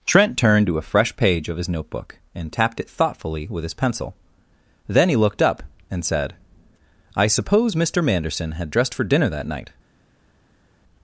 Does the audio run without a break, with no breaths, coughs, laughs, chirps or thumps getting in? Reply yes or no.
yes